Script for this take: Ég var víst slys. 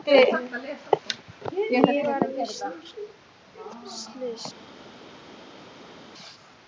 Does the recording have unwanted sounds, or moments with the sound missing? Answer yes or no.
no